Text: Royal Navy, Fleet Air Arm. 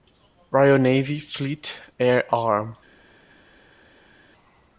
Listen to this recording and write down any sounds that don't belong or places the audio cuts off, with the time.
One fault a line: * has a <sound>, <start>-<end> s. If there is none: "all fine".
all fine